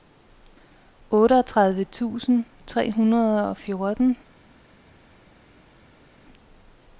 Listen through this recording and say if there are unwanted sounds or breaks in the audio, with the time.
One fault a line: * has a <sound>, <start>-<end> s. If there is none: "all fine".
all fine